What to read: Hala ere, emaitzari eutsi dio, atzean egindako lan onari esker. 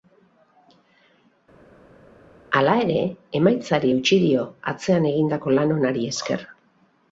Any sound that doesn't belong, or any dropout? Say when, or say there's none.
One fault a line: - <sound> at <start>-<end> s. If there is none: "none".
none